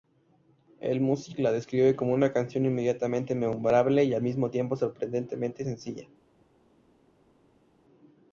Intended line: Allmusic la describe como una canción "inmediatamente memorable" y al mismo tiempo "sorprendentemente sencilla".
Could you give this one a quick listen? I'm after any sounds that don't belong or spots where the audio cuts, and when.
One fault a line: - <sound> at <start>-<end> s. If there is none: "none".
none